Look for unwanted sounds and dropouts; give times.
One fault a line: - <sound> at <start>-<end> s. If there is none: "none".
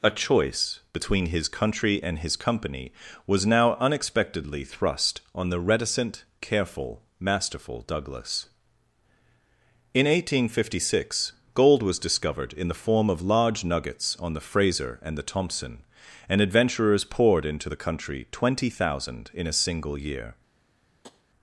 - tap at 21.0-21.2 s